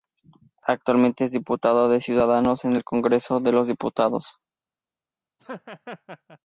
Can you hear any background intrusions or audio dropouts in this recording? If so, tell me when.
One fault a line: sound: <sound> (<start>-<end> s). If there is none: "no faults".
sound: laugh (5.4-6.4 s)